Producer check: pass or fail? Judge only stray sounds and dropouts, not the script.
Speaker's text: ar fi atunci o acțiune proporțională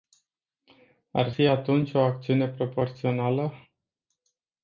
pass